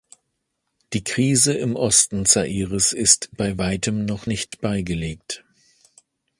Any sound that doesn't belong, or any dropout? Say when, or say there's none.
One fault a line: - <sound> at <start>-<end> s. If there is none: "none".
- dropout at 4.5-4.5 s